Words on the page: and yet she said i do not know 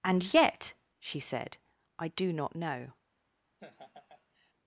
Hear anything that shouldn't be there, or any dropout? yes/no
yes